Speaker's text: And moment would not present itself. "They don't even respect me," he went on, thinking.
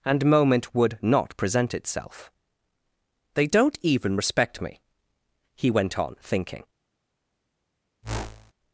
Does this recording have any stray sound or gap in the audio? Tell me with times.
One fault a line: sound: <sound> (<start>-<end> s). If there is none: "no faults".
sound: whoosh (8.0-8.5 s)